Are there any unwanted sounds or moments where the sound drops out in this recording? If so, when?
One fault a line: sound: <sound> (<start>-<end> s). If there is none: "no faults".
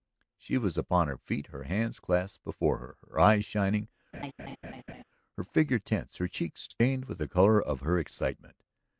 sound: laugh (4.1-5.0 s)